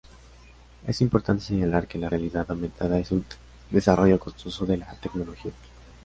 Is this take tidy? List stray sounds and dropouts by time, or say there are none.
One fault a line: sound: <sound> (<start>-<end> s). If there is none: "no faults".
no faults